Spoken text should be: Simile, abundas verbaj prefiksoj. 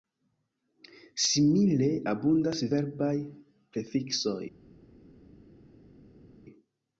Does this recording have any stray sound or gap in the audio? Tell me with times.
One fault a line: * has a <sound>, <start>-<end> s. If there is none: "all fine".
all fine